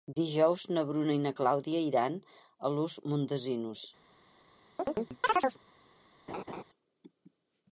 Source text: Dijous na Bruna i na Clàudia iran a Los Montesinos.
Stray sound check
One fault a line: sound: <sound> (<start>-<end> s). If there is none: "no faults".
sound: chirp (4.8-5.6 s)
sound: laugh (6.3-6.6 s)